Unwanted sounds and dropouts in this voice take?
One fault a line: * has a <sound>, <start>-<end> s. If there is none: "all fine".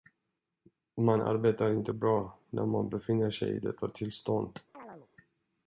* has a chirp, 4.7-5.1 s